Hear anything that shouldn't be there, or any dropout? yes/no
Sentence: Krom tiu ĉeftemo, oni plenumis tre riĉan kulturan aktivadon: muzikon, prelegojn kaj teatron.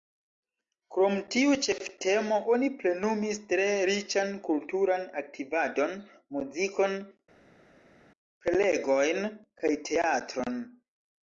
no